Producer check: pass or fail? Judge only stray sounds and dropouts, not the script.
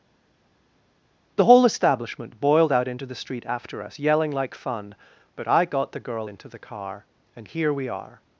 pass